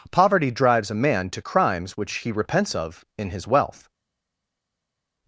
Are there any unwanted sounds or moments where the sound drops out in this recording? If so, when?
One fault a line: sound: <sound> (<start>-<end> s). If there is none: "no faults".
no faults